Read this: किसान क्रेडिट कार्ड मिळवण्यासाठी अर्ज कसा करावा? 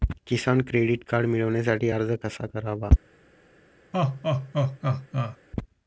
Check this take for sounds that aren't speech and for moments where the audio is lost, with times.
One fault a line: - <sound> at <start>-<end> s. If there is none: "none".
- laugh at 3.9-5.4 s